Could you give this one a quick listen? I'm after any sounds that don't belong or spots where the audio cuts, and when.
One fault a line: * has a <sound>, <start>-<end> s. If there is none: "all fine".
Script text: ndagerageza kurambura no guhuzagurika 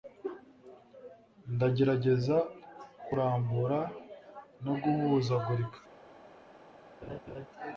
* has a laugh, 7.0-7.5 s